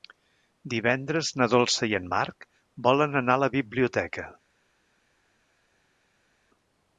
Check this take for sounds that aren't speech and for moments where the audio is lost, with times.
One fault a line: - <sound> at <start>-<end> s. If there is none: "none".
none